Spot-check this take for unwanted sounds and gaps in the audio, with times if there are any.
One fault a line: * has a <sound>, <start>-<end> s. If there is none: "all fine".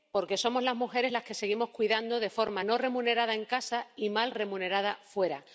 all fine